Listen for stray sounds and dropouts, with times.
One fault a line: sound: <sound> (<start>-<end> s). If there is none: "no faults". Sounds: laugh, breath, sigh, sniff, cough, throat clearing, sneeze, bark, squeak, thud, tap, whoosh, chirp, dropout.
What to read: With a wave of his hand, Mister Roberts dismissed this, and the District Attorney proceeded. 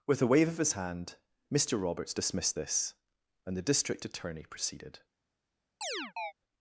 sound: chirp (5.8-6.3 s)